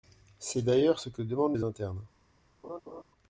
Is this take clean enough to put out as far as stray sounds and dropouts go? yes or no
no